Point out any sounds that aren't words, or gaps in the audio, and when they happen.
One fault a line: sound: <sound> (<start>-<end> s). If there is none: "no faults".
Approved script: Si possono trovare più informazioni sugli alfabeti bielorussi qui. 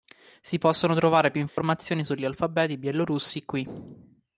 sound: dropout (1.5-1.6 s)